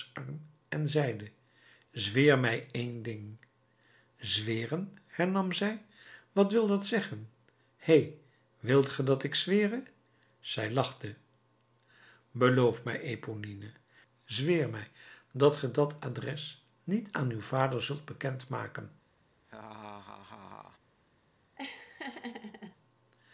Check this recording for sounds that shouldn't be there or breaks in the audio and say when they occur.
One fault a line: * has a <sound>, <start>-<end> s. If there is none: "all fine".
* has a laugh, 19.4-20.8 s
* has a laugh, 21.6-22.8 s